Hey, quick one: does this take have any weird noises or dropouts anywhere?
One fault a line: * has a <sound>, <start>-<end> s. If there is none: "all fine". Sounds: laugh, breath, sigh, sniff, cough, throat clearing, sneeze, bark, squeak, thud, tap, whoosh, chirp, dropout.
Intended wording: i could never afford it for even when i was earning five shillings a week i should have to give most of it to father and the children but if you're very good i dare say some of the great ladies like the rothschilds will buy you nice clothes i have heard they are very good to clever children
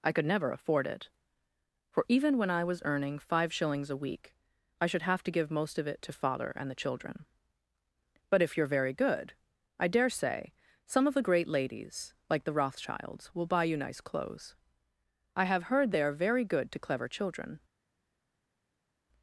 all fine